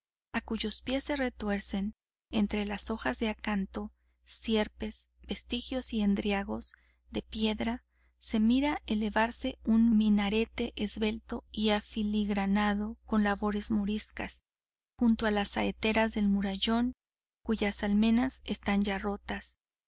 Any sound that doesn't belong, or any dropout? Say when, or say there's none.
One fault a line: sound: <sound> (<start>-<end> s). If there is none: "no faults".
no faults